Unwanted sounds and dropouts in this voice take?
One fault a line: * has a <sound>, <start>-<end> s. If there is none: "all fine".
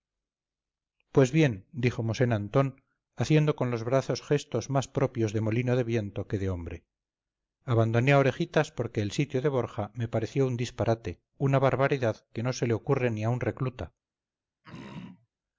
* has a throat clearing, 14.6-15.3 s